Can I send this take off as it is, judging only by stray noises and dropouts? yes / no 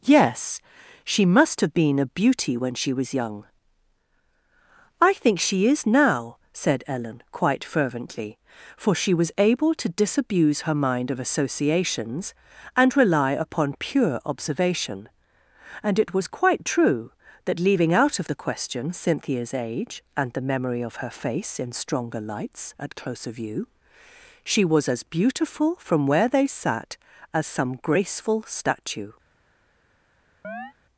no